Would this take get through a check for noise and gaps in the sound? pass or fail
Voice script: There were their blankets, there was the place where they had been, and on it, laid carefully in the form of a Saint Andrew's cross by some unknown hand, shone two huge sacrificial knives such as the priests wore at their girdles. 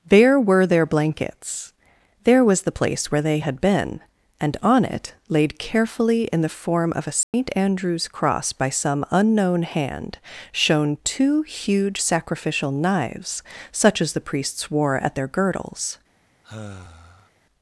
fail